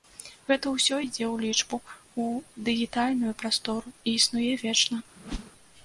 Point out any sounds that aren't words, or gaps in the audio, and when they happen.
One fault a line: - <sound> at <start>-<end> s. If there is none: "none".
- whoosh at 5.2-5.5 s